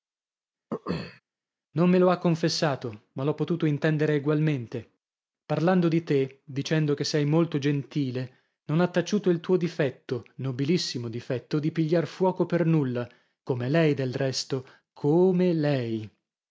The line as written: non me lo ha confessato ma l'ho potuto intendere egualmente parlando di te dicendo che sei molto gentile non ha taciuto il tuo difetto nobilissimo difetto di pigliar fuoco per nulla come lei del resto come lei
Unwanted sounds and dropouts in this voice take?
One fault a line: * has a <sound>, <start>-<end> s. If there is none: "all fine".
* has a throat clearing, 0.7-1.2 s